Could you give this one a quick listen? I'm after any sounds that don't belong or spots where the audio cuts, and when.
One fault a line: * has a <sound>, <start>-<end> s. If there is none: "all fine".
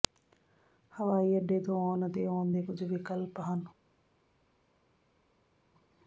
all fine